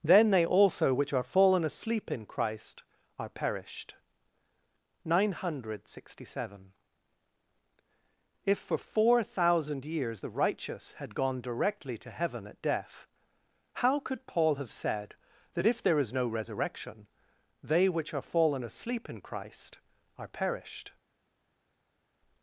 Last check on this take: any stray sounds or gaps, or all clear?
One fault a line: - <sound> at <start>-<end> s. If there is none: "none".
none